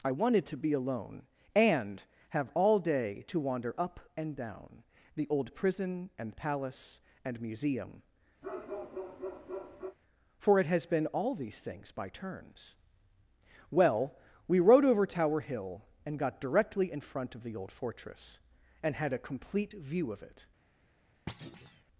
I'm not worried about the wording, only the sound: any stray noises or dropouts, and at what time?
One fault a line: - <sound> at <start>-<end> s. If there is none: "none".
- bark at 8.4-10.0 s
- thud at 21.3-21.8 s